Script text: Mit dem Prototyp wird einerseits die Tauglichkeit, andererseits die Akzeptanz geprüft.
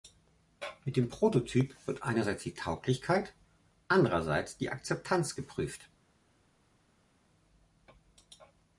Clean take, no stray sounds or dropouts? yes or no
yes